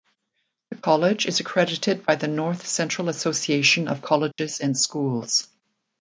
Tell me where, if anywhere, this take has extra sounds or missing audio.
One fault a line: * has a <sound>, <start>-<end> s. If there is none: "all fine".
* has a dropout, 4.3-4.4 s